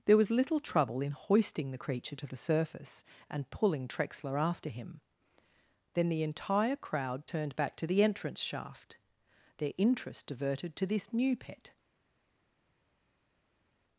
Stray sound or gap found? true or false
false